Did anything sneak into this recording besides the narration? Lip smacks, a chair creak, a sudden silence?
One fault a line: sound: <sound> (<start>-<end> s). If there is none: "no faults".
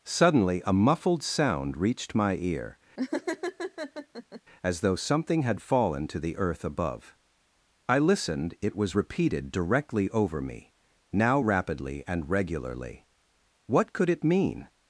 sound: laugh (3.0-4.4 s)